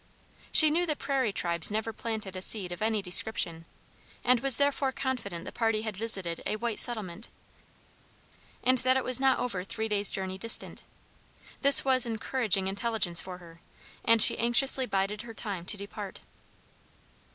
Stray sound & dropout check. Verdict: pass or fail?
pass